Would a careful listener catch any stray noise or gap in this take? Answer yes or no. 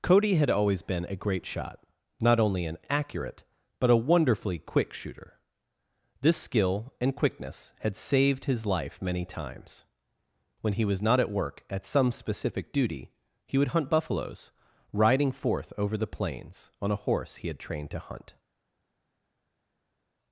no